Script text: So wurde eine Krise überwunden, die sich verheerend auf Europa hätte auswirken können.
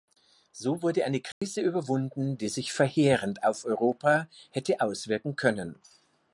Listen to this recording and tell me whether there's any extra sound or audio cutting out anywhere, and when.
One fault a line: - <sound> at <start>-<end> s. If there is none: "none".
- dropout at 1.3-1.4 s